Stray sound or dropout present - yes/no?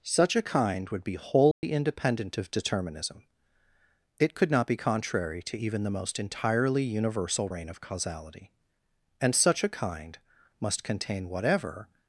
yes